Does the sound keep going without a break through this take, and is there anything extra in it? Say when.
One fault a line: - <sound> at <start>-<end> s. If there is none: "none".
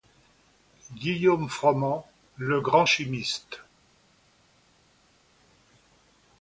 none